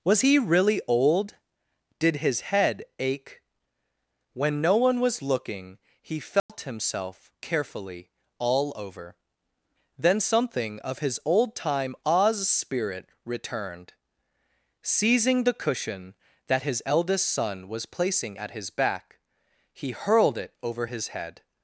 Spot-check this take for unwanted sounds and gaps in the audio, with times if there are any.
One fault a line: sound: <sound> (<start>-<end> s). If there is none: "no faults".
sound: dropout (6.4-6.5 s)